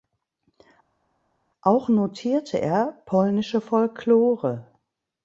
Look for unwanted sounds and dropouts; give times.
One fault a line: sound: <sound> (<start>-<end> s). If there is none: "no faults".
no faults